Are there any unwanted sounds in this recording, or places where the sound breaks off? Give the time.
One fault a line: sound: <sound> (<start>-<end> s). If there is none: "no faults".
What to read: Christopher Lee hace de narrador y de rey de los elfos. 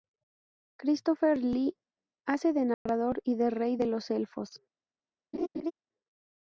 sound: dropout (2.7-2.9 s)
sound: laugh (5.3-5.7 s)